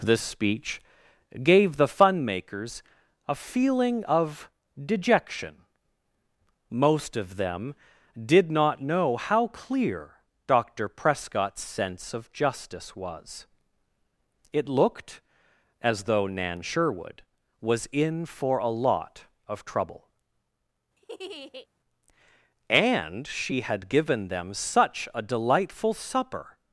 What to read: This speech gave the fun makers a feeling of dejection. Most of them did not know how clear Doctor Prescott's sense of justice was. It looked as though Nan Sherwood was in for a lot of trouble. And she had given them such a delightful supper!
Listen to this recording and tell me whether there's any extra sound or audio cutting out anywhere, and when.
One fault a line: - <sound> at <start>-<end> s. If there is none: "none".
- laugh at 21.0-21.7 s